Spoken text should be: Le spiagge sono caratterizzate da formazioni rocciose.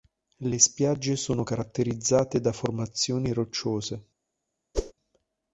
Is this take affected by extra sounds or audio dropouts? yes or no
yes